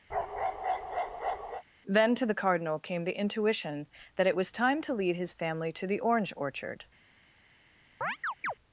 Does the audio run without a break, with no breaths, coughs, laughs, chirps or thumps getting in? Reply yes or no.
no